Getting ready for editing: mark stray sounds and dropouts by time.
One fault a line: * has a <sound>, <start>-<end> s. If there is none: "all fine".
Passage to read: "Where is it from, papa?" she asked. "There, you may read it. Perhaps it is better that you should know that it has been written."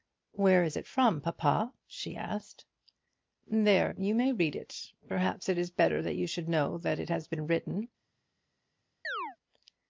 * has a chirp, 9.0-9.4 s